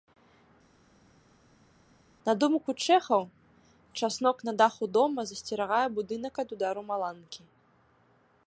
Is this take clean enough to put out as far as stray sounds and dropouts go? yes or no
yes